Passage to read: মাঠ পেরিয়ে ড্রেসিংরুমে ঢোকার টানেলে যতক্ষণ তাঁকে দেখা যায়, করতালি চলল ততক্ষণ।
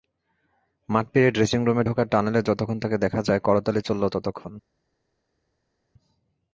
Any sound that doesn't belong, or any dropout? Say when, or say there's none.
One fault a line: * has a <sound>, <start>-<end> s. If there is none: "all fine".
all fine